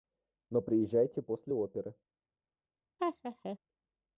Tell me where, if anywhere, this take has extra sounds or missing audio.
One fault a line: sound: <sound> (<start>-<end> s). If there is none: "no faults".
sound: laugh (3.0-3.6 s)